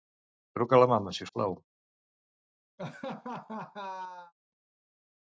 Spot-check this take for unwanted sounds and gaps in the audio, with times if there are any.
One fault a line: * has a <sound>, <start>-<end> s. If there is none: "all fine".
* has a laugh, 2.8-4.3 s